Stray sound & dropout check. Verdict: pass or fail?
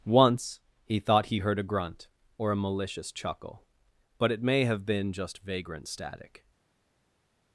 pass